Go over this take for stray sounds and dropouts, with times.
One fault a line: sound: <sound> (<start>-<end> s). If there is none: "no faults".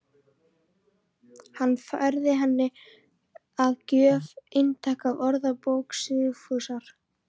no faults